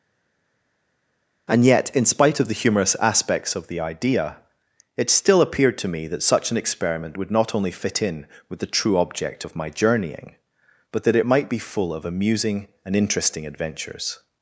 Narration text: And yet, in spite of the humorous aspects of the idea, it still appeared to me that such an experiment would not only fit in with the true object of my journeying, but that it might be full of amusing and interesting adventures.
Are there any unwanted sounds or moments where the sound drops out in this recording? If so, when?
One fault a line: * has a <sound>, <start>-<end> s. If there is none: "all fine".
all fine